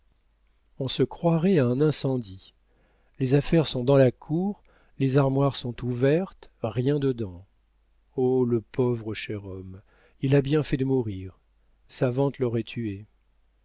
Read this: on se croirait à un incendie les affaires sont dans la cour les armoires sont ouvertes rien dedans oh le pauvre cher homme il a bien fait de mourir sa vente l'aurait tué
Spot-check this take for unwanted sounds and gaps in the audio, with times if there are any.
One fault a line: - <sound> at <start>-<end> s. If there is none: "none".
none